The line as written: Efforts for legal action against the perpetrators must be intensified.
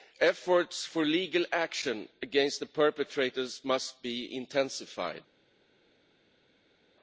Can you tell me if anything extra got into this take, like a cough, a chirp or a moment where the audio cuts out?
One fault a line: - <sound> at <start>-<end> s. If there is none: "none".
none